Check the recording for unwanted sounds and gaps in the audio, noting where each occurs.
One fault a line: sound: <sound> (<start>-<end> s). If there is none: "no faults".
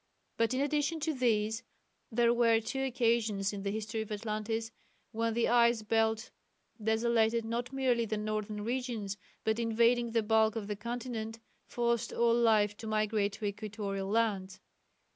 no faults